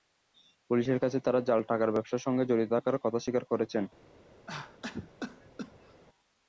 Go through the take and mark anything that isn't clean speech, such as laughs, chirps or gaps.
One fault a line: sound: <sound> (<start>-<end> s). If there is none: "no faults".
sound: cough (4.5-6.0 s)